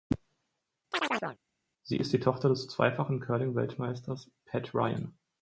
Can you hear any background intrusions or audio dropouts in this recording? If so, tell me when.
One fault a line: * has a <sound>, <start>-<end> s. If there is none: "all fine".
* has a chirp, 0.9-1.4 s